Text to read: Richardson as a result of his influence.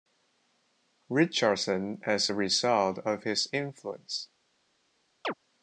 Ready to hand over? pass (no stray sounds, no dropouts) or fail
fail